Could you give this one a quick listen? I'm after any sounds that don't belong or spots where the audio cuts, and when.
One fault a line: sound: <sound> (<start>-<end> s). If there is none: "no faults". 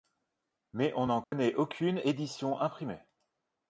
sound: dropout (1.2-1.3 s)